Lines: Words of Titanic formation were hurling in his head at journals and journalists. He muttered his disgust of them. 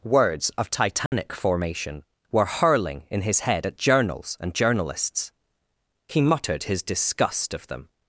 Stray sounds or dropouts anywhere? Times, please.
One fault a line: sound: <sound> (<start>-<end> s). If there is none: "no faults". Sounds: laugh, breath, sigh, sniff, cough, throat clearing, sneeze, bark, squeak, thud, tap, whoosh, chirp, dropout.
sound: dropout (1.1-1.1 s)